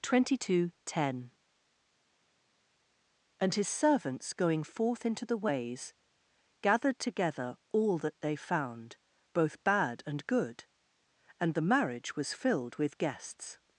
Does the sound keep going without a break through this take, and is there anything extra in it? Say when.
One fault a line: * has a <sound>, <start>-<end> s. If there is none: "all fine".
all fine